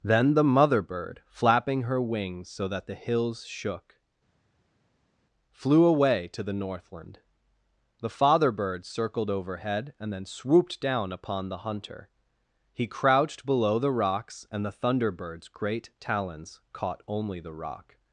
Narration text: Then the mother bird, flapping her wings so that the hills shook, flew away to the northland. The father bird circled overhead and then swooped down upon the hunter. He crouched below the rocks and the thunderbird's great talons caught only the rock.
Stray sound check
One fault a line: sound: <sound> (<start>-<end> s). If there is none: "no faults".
no faults